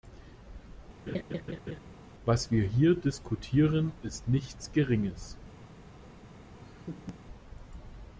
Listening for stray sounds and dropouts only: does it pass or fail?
fail